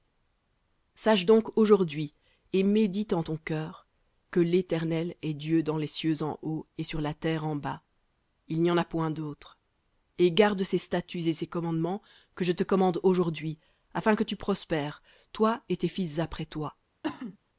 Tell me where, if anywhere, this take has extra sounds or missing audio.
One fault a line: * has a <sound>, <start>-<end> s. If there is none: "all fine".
* has a cough, 17.0-17.4 s